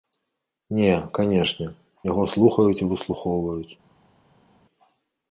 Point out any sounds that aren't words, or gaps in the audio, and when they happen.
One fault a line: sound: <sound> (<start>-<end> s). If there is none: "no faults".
no faults